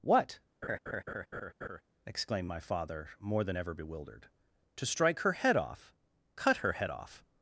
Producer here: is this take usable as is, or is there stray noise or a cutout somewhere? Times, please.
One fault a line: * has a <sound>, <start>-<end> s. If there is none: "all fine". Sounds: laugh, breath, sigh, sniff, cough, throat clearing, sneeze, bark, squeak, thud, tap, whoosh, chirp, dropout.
* has a laugh, 0.6-1.8 s